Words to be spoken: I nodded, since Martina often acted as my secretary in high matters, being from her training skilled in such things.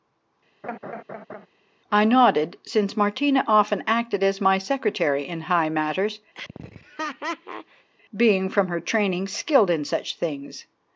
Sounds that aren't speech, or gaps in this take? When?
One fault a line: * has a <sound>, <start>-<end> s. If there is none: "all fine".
* has a laugh, 0.6-1.5 s
* has a laugh, 6.3-7.9 s